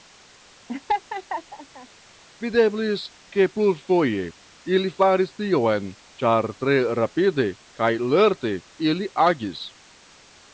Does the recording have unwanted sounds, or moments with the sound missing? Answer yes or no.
yes